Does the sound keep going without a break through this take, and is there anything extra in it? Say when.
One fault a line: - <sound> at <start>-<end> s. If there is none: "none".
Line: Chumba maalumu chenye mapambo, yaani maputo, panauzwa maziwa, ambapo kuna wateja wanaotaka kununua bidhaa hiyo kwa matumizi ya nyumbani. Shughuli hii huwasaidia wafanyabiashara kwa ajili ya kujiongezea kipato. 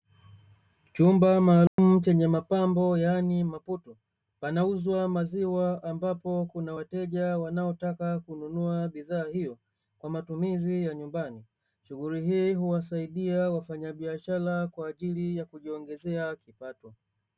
- dropout at 1.7-1.8 s